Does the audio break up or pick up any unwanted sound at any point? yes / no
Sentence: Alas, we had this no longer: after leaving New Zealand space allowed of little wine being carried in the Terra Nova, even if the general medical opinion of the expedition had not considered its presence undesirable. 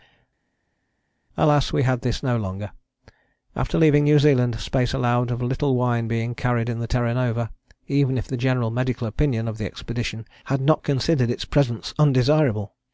no